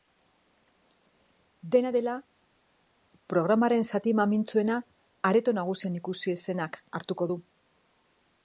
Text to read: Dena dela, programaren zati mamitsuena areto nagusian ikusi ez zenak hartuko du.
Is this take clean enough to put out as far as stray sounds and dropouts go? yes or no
yes